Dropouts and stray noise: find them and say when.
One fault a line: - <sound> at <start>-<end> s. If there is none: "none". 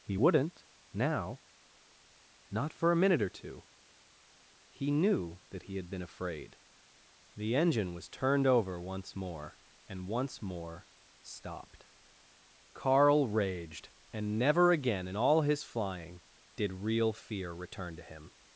none